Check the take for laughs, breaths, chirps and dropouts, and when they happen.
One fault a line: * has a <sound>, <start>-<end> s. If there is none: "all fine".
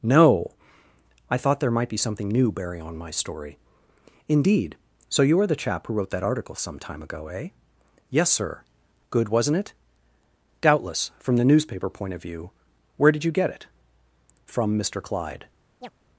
* has a chirp, 15.8-15.9 s